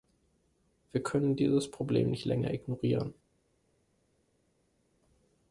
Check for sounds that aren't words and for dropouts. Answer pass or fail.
pass